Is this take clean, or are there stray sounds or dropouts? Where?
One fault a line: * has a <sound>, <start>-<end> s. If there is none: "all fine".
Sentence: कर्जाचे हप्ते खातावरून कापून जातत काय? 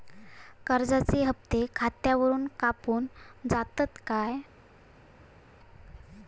all fine